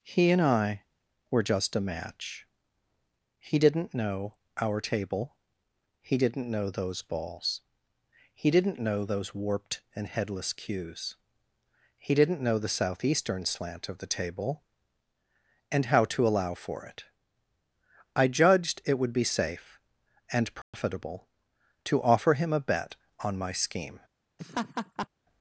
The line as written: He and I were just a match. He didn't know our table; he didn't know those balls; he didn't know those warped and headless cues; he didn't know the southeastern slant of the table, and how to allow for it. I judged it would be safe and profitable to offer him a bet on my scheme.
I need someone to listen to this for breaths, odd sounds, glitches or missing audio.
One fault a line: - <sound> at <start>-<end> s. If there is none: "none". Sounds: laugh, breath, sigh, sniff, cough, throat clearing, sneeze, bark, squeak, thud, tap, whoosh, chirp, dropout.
- dropout at 20.6-20.7 s
- laugh at 24.4-25.1 s